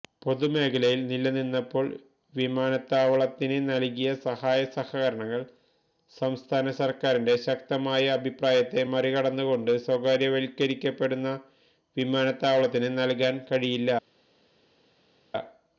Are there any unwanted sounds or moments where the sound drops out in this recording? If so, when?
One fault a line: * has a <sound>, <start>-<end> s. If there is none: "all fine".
all fine